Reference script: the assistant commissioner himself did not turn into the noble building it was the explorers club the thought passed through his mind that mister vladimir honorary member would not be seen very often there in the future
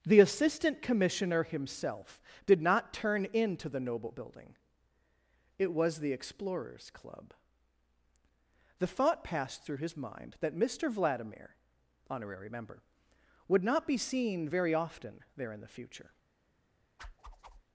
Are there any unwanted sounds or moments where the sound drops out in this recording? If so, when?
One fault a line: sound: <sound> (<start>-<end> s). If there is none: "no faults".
sound: whoosh (17.0-17.6 s)